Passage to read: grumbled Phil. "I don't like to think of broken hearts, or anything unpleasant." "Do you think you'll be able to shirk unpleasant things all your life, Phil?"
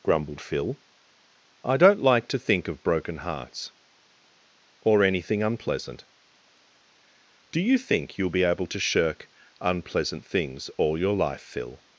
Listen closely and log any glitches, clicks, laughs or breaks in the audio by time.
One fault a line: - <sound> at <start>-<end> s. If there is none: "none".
none